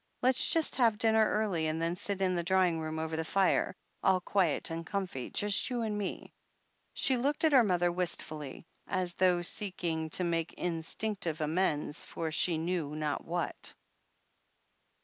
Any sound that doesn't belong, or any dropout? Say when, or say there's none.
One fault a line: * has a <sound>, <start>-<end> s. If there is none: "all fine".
all fine